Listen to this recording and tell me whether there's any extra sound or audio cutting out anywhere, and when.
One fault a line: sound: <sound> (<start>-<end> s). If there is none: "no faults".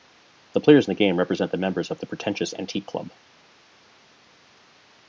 no faults